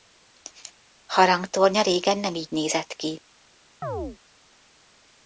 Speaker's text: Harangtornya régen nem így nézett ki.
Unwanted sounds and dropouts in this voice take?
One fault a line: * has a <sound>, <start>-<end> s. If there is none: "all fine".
* has a chirp, 3.8-4.2 s